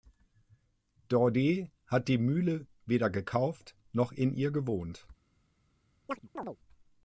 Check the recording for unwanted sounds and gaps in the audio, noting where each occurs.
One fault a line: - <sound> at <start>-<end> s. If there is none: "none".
- chirp at 6.1-6.6 s